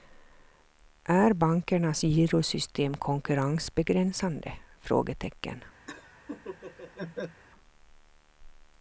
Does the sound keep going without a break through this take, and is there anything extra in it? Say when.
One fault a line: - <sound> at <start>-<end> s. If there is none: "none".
- laugh at 5.9-7.4 s